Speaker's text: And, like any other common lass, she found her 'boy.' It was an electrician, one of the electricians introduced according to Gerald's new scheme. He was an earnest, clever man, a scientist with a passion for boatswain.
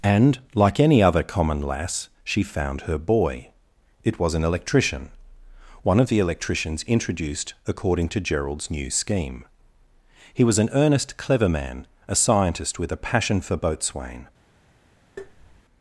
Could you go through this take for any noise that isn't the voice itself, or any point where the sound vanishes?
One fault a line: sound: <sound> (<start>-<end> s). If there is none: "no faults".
sound: tap (15.2-15.6 s)